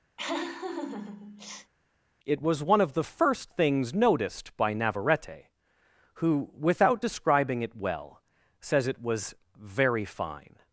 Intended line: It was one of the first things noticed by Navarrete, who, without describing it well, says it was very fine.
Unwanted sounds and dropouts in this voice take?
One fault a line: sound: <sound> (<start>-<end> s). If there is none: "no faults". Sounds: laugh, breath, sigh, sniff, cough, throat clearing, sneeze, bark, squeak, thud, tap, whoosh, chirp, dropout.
sound: laugh (0.2-1.7 s)